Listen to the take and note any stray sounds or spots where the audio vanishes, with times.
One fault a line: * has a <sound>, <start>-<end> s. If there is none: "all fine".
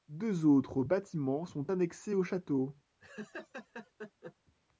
* has a laugh, 3.0-4.3 s